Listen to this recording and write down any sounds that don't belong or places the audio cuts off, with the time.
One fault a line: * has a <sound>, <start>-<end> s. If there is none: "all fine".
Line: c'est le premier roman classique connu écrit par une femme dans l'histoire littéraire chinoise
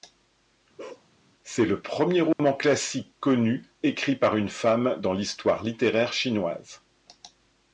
* has a bark, 0.8-1.1 s
* has a dropout, 2.3-2.4 s